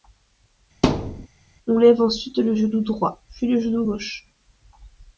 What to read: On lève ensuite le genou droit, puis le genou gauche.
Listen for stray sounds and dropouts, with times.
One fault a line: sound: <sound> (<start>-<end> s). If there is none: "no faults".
sound: thud (0.8-1.3 s)